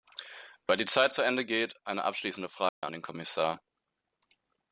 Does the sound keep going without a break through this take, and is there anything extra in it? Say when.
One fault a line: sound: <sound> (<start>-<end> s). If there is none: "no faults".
sound: dropout (2.7-2.8 s)